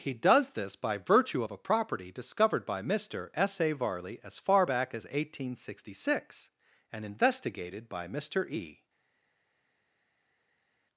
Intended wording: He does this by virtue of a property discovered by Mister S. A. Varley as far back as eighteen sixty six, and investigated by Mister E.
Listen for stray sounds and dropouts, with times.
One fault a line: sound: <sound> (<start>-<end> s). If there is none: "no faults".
no faults